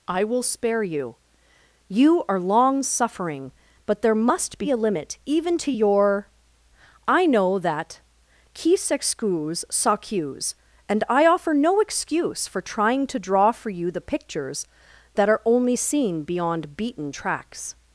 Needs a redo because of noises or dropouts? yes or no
no